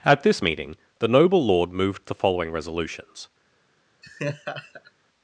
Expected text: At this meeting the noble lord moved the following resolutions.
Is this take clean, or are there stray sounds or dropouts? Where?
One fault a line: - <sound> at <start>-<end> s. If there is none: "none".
- laugh at 4.0-4.9 s